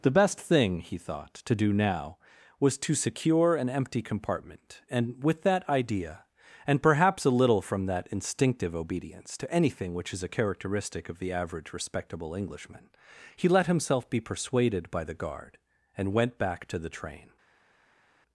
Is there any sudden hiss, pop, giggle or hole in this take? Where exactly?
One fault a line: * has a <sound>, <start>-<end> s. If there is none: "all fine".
all fine